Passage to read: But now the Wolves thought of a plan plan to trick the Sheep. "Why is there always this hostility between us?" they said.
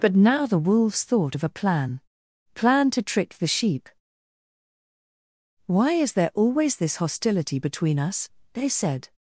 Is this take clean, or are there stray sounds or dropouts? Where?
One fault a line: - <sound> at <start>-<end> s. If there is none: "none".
none